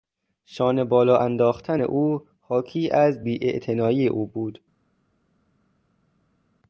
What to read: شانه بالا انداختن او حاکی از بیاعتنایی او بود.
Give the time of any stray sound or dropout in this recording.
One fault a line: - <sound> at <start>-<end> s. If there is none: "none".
none